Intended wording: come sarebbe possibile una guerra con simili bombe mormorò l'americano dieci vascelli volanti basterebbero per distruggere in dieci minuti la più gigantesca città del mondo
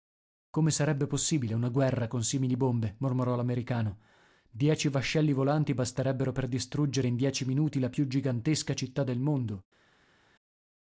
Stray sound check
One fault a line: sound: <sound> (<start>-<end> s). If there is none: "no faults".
no faults